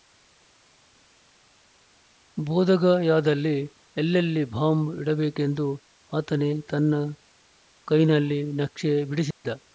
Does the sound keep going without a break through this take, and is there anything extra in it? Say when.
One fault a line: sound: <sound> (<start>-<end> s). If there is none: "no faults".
sound: dropout (9.3-9.4 s)